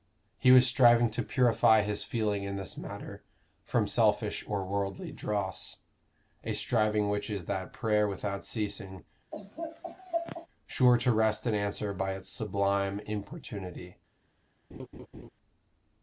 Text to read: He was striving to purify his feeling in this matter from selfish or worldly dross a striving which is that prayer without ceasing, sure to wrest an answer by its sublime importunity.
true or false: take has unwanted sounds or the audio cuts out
true